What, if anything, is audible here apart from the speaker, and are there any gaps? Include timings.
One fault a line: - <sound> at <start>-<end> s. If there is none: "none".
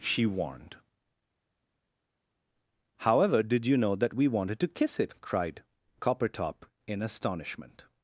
none